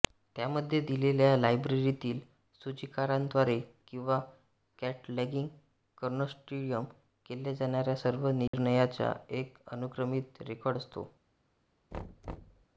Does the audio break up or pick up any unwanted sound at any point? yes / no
yes